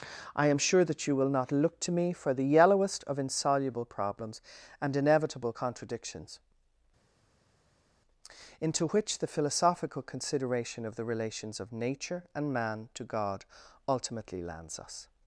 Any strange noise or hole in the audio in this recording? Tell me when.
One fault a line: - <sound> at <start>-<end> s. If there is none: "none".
none